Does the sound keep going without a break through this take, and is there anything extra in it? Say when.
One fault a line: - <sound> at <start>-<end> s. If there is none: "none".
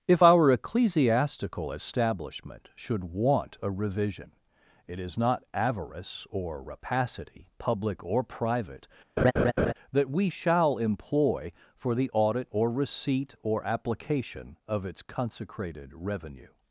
- laugh at 9.2-9.7 s